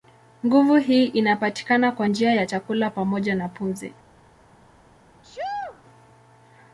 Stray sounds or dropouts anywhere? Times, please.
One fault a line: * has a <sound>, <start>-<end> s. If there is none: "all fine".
* has a sneeze, 5.2-5.8 s